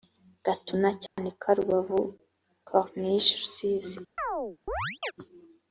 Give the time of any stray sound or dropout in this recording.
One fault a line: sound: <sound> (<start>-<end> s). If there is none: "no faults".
sound: dropout (1.1-1.2 s)
sound: chirp (4.2-5.1 s)